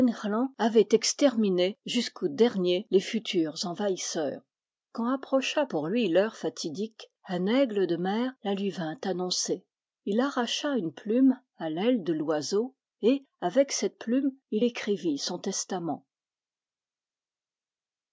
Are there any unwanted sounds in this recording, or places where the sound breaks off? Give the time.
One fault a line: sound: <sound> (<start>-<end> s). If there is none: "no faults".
no faults